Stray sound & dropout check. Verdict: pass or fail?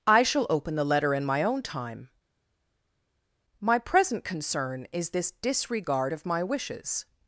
pass